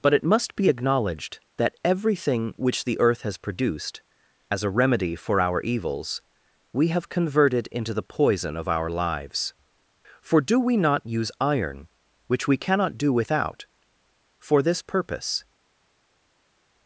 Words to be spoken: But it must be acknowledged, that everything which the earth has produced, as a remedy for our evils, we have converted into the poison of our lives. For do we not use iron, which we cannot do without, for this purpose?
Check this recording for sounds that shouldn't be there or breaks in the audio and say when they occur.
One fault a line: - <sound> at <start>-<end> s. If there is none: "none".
none